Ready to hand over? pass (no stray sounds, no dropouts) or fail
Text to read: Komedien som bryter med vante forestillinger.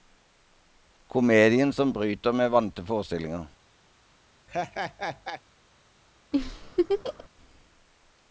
fail